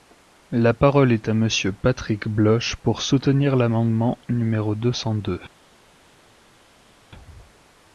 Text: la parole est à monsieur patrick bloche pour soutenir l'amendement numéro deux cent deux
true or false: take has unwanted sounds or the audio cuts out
false